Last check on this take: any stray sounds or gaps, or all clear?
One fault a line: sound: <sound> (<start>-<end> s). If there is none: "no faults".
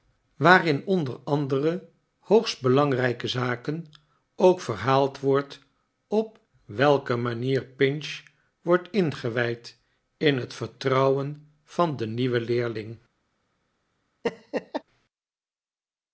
sound: laugh (14.2-14.8 s)